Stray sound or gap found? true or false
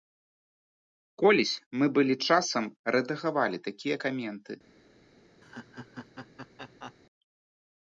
true